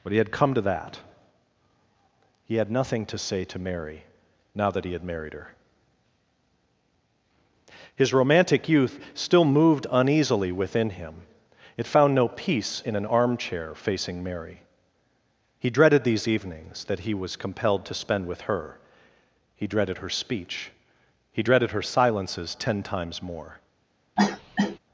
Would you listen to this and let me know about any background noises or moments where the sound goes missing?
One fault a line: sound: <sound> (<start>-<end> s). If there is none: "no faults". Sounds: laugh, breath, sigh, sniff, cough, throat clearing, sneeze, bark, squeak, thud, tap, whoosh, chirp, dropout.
sound: cough (24.2-24.8 s)